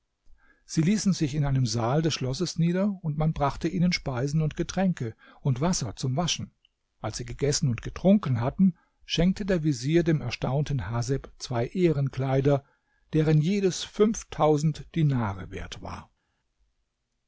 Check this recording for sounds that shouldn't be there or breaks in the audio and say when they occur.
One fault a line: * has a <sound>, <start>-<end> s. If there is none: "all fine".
all fine